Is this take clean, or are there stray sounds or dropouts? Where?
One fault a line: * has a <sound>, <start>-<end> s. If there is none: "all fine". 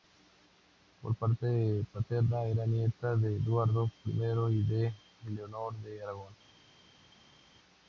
all fine